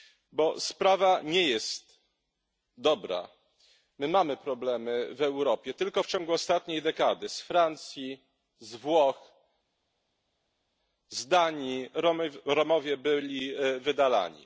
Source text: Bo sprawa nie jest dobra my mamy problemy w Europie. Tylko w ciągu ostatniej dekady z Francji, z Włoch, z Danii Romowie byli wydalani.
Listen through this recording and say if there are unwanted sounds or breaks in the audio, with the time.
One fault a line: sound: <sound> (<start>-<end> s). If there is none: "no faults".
no faults